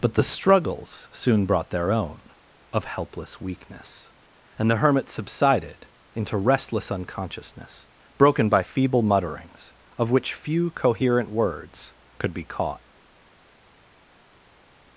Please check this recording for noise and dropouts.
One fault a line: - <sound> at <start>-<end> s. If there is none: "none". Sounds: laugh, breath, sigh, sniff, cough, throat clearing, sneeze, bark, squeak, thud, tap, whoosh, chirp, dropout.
none